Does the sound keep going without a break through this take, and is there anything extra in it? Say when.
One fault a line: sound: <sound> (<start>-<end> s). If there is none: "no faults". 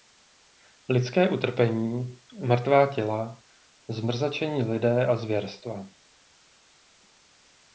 no faults